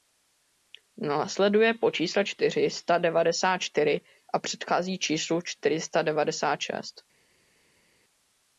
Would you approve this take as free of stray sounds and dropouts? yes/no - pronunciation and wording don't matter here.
yes